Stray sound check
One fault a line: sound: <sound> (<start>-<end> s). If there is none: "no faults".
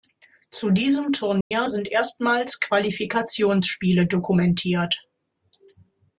sound: dropout (1.4-1.5 s)